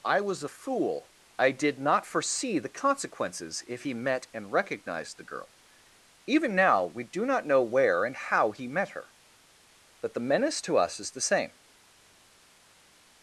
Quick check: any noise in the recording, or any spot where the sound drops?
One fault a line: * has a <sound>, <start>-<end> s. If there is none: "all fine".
all fine